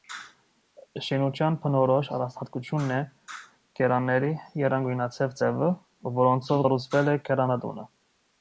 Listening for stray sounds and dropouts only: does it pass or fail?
pass